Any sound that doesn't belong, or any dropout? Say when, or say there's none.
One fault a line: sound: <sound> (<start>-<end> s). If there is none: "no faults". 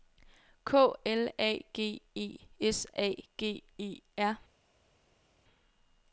no faults